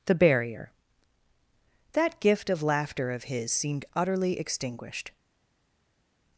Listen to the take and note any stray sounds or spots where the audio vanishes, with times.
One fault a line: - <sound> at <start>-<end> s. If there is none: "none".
none